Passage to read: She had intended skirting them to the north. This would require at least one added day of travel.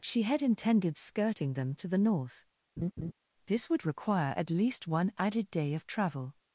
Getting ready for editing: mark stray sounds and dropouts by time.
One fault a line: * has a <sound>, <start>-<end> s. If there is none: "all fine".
* has a laugh, 2.8-3.1 s